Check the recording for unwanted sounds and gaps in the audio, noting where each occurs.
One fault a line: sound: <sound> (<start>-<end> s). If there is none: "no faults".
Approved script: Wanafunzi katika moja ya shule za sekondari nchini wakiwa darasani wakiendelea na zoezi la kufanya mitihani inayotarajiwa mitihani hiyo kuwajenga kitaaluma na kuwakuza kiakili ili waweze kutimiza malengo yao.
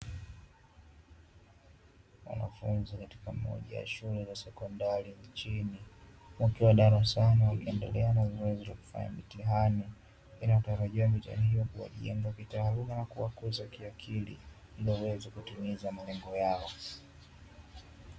no faults